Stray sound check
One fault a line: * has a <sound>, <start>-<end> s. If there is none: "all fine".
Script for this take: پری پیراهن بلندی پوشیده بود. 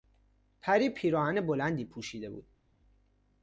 all fine